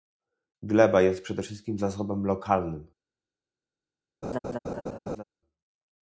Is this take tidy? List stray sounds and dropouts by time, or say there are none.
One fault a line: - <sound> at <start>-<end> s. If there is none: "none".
- laugh at 4.2-5.2 s